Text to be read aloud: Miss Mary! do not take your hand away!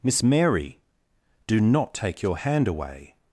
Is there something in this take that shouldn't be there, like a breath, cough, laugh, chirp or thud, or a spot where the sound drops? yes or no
no